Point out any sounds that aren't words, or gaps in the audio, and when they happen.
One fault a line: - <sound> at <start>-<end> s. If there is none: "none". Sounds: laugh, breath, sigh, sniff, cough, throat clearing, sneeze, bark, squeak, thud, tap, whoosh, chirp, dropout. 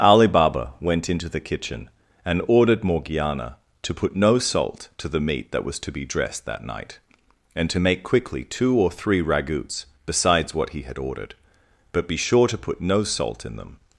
none